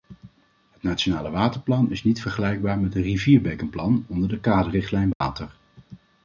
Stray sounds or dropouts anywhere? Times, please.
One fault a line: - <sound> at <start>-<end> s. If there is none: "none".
- dropout at 5.1-5.2 s